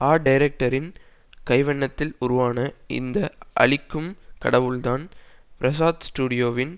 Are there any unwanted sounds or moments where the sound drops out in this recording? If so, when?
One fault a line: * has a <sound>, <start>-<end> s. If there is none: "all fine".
all fine